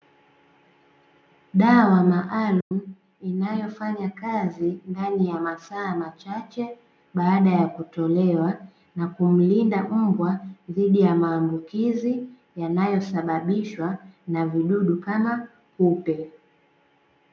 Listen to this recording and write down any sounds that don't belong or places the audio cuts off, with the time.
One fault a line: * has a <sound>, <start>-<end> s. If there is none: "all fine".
* has a dropout, 2.6-2.7 s